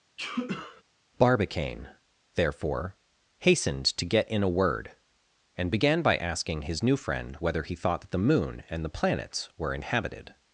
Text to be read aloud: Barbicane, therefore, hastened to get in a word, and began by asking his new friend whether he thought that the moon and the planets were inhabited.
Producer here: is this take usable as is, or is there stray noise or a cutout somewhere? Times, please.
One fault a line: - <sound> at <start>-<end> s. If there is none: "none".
- sneeze at 0.2-0.8 s